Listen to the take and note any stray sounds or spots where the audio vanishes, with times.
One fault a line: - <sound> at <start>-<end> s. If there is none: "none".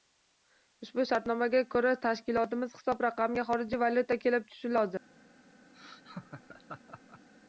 - laugh at 5.7-7.3 s